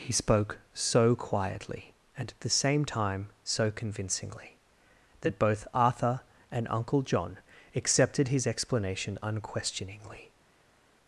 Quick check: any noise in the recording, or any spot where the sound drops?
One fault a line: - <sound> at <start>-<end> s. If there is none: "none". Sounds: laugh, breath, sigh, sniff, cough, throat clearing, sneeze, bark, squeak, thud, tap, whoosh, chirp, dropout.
none